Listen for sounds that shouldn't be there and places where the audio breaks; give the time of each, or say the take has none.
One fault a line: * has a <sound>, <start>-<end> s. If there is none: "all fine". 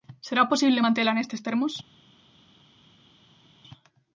all fine